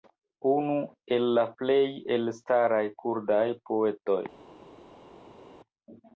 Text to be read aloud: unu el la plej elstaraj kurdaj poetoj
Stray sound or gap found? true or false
false